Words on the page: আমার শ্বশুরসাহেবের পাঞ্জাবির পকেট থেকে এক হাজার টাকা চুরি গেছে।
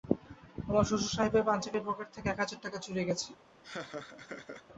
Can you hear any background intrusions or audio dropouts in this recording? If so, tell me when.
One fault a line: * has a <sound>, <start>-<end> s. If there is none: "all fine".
* has a laugh, 3.6-4.7 s